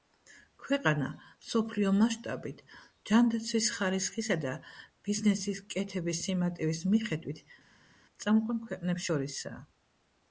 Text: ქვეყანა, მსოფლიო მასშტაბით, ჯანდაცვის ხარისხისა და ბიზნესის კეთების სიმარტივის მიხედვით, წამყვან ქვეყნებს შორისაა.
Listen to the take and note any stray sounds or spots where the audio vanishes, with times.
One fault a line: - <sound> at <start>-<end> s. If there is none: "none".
none